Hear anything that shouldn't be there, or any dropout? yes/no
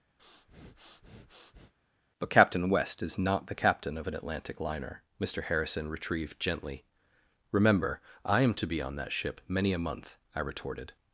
yes